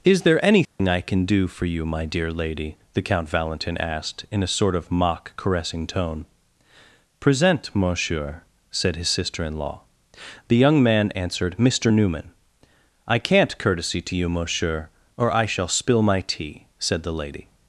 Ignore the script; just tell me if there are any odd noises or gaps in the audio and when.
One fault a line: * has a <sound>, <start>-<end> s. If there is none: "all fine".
* has a dropout, 0.6-0.8 s